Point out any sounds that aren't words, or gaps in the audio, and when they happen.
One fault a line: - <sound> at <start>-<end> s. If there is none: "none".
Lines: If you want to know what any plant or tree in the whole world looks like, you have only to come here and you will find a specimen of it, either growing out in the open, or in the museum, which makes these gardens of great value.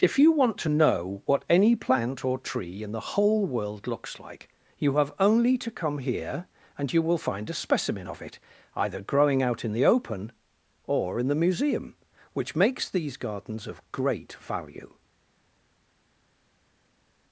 none